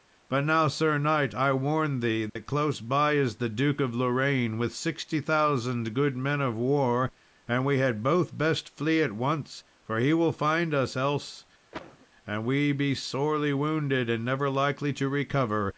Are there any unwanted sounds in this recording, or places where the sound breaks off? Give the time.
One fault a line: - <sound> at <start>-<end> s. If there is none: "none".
- dropout at 2.3-2.4 s
- cough at 11.7-12.1 s